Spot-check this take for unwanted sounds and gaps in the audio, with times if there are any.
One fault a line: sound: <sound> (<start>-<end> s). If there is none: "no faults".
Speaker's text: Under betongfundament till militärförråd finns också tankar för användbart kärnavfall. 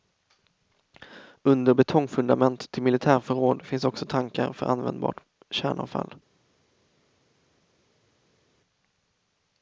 no faults